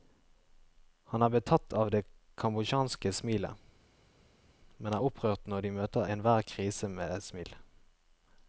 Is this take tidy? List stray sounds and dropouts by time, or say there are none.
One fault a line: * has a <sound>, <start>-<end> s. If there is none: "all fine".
all fine